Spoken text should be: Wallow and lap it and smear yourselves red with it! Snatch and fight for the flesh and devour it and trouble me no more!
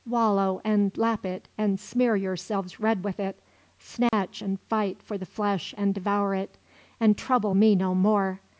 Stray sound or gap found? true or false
true